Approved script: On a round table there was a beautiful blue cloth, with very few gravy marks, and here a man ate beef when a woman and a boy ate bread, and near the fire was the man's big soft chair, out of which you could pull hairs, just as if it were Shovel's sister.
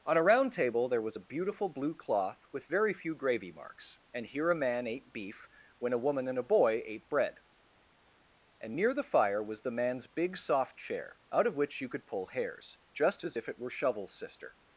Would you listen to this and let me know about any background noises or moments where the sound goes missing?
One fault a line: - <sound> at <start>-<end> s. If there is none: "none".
none